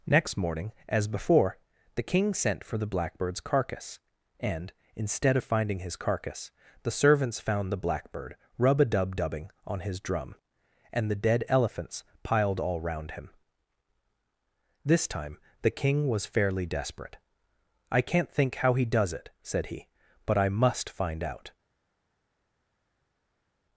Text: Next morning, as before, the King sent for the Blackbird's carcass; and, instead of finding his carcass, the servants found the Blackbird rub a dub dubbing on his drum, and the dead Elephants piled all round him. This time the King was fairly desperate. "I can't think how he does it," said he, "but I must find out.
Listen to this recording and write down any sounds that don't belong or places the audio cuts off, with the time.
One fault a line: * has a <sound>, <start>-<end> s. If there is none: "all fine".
all fine